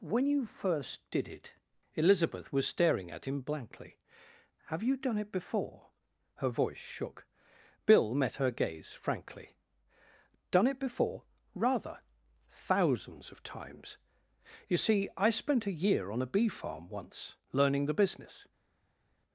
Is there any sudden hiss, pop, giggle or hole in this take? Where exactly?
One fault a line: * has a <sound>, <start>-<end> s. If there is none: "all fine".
all fine